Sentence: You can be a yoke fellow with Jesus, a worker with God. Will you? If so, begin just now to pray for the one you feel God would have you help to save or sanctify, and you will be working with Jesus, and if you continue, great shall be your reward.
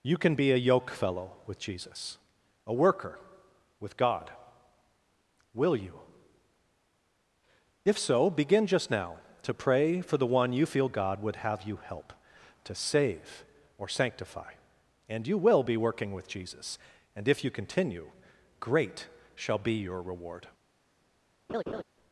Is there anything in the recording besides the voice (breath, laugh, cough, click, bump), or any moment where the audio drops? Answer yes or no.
yes